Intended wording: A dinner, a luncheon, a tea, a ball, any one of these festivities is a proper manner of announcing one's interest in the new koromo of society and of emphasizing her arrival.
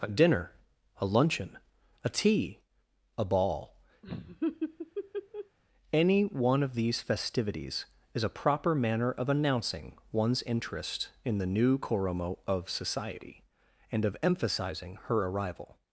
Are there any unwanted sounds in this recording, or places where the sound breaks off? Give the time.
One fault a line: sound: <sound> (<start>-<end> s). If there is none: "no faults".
sound: laugh (4.0-5.6 s)